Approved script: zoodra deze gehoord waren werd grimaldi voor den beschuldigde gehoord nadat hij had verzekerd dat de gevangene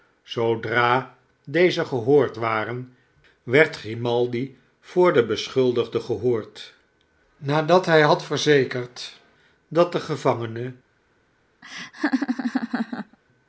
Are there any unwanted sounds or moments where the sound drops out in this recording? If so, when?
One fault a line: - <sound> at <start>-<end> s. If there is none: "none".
- laugh at 11.6-13.2 s